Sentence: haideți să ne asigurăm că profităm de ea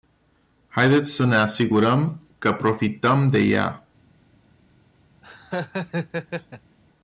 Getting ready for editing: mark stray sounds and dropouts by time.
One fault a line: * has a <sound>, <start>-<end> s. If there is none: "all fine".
* has a laugh, 5.2-6.8 s